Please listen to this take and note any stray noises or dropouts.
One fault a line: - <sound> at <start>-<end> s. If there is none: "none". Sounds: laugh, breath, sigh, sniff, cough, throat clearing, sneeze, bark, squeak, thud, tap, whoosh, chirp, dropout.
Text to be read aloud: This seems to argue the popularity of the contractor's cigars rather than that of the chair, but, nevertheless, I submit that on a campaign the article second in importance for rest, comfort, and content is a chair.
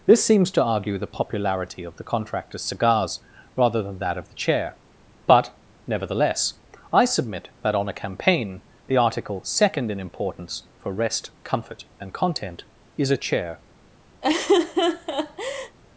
- laugh at 14.2-15.8 s